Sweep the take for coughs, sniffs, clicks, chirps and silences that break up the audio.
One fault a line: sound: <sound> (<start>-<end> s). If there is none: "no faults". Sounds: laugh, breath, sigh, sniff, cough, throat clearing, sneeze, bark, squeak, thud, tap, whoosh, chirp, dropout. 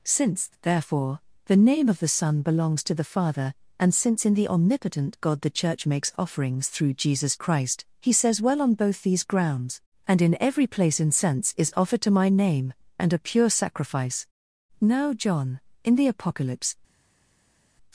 no faults